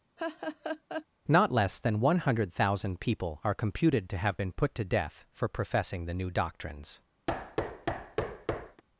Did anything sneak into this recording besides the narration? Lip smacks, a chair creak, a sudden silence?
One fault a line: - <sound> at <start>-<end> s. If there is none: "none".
- laugh at 0.2-1.1 s
- thud at 7.3-8.8 s